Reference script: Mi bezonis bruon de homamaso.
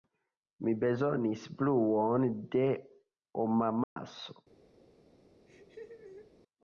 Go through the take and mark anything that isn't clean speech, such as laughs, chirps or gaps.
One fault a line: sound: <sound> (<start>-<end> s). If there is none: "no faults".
sound: dropout (3.8-4.0 s)
sound: laugh (5.5-6.4 s)